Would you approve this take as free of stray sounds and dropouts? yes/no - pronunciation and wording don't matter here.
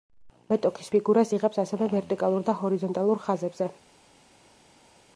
yes